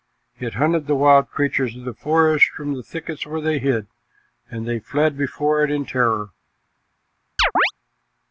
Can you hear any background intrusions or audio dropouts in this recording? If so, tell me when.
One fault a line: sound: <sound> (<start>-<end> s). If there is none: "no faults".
sound: chirp (7.4-7.7 s)